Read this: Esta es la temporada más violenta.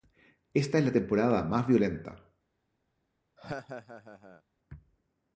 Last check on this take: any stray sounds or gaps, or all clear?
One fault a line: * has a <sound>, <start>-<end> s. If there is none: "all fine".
* has a laugh, 3.4-4.4 s